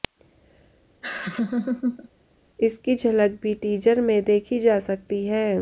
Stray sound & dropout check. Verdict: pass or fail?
fail